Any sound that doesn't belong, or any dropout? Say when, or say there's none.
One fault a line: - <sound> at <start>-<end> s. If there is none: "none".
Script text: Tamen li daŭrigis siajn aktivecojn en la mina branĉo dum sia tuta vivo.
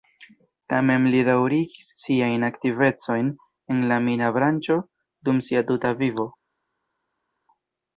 none